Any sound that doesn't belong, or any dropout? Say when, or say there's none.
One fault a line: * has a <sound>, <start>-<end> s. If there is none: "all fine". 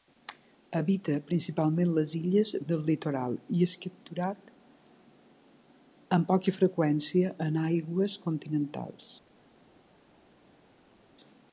all fine